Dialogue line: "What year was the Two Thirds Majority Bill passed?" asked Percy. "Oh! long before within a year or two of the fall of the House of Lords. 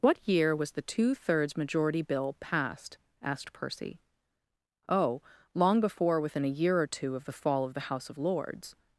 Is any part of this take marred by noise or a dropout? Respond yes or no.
no